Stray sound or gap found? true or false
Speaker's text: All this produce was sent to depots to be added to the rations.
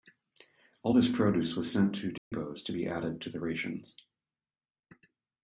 true